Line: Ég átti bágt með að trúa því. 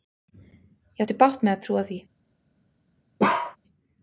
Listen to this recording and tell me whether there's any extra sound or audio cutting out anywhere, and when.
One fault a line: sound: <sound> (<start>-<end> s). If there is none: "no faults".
sound: bark (3.2-3.6 s)